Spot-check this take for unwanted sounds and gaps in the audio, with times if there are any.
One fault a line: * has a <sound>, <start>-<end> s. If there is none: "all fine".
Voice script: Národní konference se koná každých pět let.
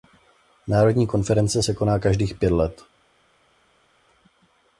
all fine